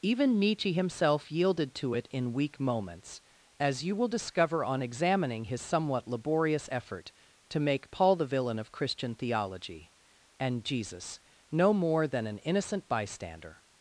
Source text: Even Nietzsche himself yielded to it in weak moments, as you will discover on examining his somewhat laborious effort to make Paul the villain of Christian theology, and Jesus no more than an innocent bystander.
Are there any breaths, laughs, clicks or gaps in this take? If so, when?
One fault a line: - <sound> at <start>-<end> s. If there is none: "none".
none